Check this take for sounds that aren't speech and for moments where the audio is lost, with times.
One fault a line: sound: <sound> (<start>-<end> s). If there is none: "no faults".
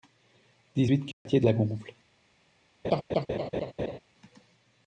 sound: dropout (1.1-1.3 s)
sound: laugh (2.8-4.0 s)